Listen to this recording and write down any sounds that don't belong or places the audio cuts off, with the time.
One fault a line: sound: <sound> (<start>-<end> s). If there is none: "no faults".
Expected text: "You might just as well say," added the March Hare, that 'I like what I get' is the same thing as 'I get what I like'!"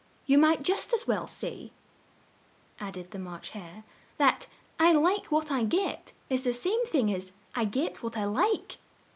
no faults